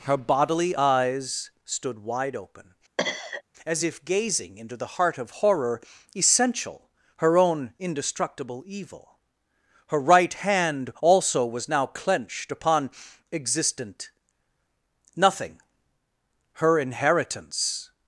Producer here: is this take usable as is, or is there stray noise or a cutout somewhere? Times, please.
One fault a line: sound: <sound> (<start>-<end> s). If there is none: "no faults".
sound: cough (3.0-3.4 s)